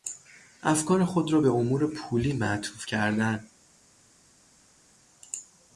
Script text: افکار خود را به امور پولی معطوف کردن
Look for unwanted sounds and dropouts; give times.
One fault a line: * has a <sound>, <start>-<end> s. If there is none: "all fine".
all fine